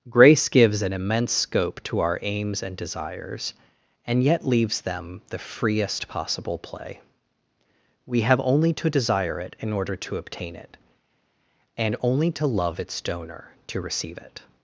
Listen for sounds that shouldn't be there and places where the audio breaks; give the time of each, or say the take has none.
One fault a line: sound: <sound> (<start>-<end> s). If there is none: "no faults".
no faults